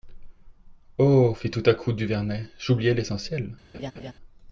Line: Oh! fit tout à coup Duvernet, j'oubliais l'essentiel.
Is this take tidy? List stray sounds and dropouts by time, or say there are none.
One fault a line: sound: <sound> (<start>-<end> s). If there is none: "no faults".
sound: laugh (3.7-4.1 s)